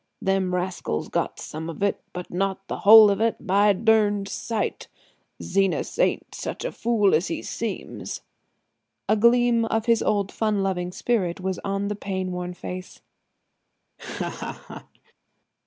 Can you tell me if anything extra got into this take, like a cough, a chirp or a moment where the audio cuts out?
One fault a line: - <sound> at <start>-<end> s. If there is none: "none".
- laugh at 14.0-15.1 s